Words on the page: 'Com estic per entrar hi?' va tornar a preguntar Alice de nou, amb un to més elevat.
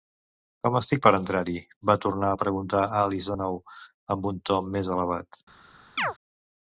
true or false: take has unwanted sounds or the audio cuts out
true